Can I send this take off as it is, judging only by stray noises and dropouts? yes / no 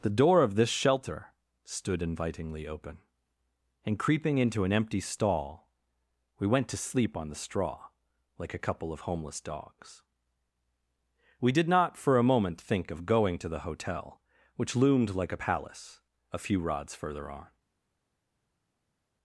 yes